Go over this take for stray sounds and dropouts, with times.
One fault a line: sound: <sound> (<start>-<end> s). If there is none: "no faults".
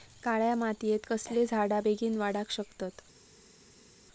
no faults